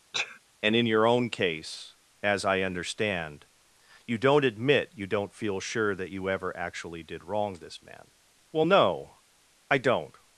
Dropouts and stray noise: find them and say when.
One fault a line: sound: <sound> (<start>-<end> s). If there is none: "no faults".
sound: sneeze (0.1-0.4 s)